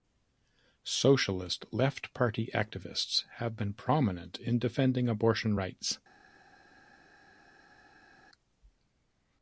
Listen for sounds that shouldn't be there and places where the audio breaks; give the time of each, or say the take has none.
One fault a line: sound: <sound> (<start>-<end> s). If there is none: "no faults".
no faults